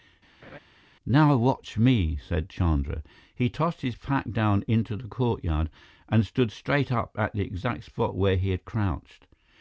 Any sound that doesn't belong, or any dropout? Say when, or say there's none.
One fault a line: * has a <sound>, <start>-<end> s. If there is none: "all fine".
* has a laugh, 0.4-0.6 s